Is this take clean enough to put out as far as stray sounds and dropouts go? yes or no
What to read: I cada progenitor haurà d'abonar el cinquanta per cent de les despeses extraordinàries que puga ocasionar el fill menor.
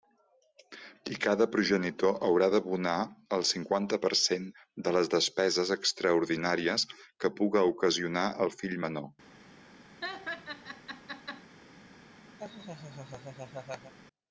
no